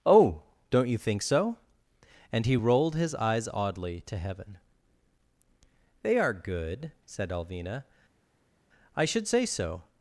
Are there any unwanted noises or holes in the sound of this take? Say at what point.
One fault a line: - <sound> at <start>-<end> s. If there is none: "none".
none